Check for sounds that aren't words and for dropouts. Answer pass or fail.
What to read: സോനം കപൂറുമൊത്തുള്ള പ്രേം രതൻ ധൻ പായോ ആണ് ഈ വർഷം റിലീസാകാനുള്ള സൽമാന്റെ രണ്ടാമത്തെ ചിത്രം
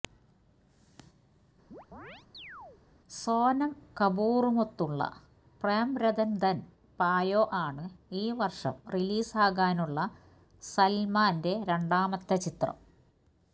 fail